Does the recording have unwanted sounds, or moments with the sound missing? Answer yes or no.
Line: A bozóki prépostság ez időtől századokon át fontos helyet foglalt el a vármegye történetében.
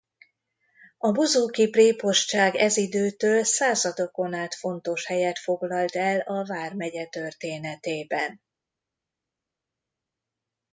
no